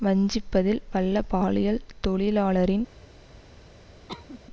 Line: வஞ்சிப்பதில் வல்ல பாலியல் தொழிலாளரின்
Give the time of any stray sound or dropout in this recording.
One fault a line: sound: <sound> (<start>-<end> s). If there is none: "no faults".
sound: cough (4.1-4.4 s)